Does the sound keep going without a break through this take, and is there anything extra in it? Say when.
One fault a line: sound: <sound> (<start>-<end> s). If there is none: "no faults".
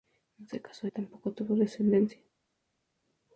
no faults